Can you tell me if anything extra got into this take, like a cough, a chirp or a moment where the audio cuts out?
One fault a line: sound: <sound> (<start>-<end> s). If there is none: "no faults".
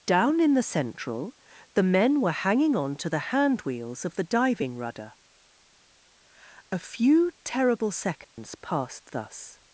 sound: dropout (8.2-8.4 s)